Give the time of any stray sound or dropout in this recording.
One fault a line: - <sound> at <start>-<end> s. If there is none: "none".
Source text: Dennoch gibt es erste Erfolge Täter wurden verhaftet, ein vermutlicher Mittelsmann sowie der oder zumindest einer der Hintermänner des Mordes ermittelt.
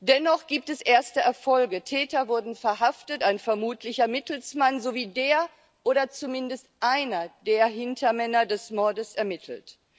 none